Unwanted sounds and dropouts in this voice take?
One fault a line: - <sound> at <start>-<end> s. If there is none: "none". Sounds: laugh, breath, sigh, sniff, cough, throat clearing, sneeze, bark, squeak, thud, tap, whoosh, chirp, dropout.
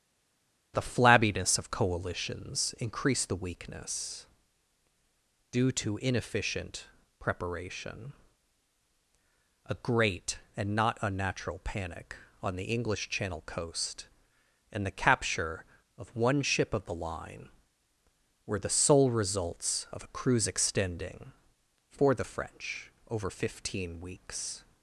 none